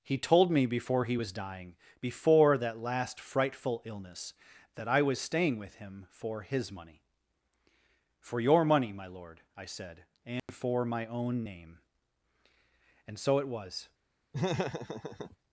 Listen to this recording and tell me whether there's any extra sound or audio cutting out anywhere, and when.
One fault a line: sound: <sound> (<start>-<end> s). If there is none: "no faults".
sound: dropout (10.4-10.5 s)
sound: laugh (14.3-15.4 s)